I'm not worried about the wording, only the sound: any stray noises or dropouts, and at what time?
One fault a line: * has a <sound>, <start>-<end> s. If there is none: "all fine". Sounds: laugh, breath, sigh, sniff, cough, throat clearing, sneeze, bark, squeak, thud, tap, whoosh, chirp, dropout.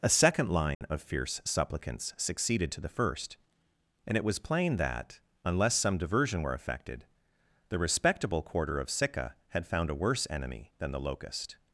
* has a dropout, 0.7-0.8 s